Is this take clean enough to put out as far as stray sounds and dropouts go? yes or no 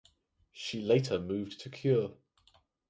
yes